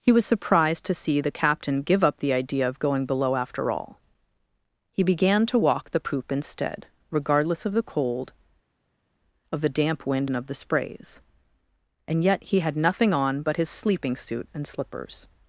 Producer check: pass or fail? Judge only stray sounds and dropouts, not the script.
pass